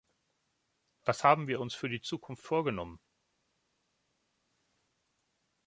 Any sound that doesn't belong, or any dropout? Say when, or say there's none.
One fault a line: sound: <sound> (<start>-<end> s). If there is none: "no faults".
no faults